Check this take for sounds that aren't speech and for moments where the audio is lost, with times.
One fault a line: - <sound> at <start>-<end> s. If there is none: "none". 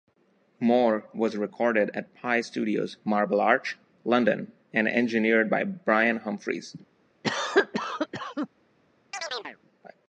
- cough at 7.2-8.5 s
- chirp at 9.1-9.6 s